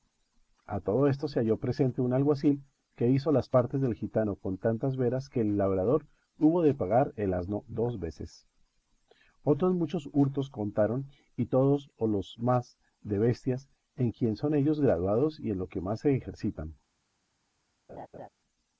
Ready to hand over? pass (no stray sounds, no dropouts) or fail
fail